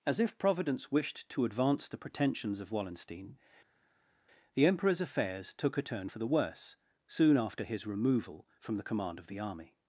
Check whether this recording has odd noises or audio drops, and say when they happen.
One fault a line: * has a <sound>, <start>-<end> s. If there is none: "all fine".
all fine